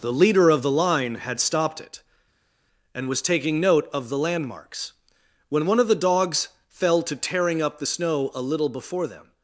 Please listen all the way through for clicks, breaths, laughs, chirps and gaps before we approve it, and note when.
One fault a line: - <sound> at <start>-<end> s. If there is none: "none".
none